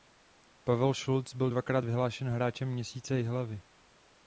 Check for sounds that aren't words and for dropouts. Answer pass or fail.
pass